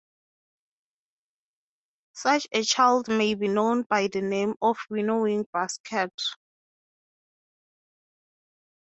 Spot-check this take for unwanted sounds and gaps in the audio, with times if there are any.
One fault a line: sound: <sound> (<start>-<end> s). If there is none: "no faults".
no faults